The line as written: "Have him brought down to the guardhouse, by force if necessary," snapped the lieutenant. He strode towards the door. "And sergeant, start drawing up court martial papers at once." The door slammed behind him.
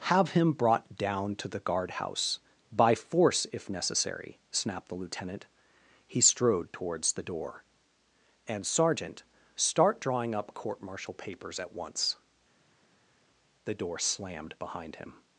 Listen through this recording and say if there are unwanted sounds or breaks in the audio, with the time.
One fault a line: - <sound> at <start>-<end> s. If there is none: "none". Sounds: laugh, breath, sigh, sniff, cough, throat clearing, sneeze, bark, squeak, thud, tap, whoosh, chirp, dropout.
none